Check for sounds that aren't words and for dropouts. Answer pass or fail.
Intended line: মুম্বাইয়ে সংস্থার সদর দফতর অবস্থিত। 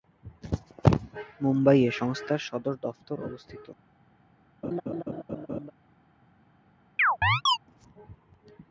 fail